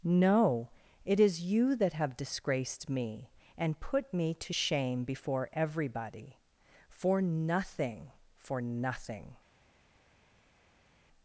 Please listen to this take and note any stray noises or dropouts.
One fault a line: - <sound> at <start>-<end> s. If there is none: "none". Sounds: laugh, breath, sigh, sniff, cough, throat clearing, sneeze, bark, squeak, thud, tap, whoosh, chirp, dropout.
none